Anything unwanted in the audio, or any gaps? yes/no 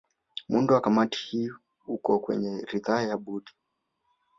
no